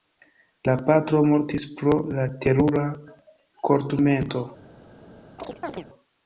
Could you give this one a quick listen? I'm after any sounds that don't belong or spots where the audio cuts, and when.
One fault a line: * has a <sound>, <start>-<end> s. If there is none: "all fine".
* has a chirp, 5.4-5.9 s